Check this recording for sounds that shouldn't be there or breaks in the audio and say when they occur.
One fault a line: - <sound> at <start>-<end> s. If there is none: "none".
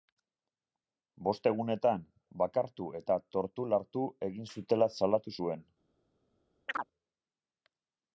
- chirp at 6.7-6.9 s